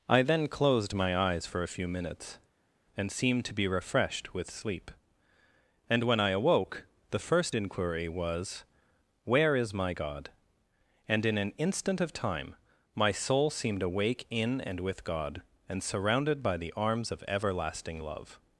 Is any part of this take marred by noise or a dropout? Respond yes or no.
no